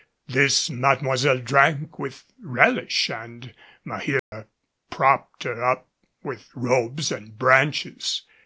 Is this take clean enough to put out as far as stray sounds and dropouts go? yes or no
no